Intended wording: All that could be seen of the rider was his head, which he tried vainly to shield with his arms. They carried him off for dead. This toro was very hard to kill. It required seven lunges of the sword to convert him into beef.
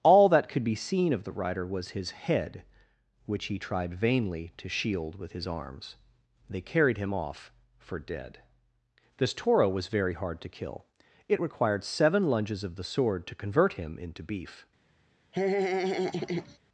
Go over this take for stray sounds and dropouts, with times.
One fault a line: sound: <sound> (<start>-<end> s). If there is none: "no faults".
sound: laugh (15.3-16.6 s)